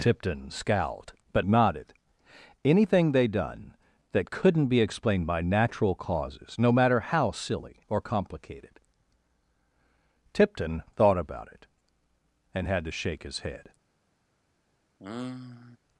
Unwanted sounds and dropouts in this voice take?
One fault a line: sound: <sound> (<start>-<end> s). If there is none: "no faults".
sound: sigh (15.0-15.8 s)